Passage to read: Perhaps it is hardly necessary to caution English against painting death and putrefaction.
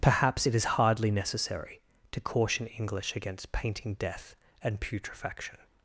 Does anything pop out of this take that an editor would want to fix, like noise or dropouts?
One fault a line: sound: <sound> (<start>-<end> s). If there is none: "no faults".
no faults